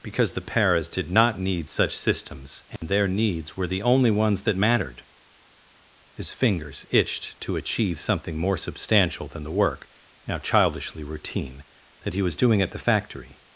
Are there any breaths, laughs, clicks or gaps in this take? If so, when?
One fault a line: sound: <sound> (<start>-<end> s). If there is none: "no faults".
sound: dropout (2.8-2.8 s)